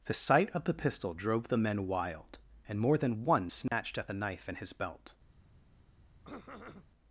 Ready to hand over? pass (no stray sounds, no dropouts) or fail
fail